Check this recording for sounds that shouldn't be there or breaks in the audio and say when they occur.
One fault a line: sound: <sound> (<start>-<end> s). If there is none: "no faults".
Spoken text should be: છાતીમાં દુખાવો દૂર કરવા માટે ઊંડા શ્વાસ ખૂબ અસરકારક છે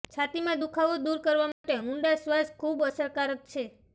sound: dropout (1.5-1.6 s)